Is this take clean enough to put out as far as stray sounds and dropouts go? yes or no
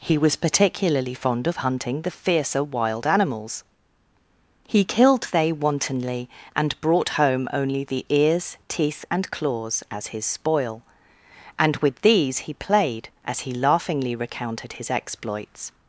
yes